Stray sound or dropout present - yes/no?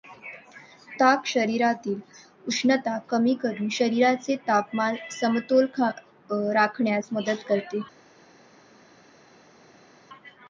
no